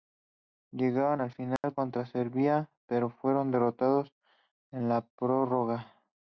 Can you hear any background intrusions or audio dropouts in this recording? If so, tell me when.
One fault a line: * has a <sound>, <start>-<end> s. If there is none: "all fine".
* has a dropout, 1.6-1.6 s